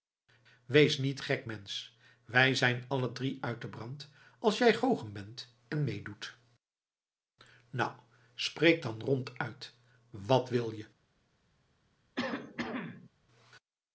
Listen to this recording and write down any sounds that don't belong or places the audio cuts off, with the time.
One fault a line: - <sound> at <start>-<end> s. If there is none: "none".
- cough at 12.2-13.1 s